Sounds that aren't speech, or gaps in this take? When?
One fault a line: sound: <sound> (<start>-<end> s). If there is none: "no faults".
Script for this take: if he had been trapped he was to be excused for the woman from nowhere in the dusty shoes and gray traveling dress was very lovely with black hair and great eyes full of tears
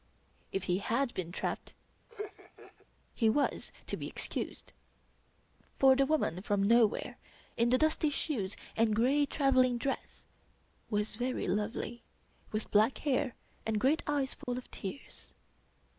sound: laugh (2.1-2.9 s)
sound: dropout (14.4-14.5 s)